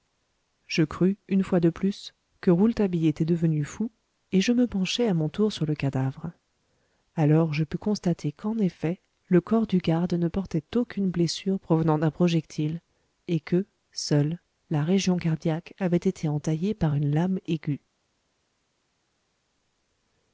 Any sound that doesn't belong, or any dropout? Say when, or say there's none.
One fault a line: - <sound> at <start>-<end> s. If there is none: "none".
none